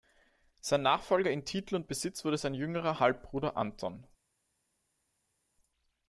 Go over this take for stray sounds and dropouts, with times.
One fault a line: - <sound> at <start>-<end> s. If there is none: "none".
none